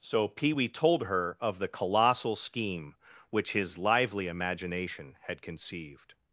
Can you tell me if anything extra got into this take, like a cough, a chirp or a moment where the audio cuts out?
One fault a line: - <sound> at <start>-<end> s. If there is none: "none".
none